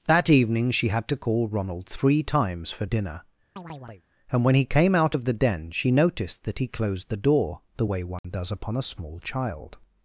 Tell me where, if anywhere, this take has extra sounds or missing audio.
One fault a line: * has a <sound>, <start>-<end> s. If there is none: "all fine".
* has a chirp, 3.6-4.0 s
* has a dropout, 8.2-8.2 s